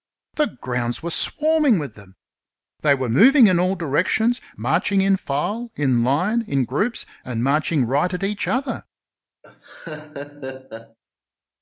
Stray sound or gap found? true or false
true